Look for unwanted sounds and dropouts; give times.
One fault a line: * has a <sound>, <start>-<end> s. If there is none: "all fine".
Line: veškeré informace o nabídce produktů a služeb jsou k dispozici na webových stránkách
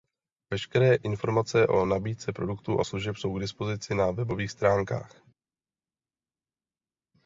all fine